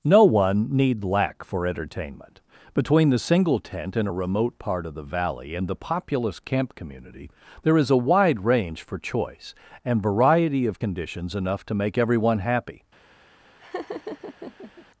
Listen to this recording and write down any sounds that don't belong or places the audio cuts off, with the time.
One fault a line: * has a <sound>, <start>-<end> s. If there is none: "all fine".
* has a laugh, 13.6-14.9 s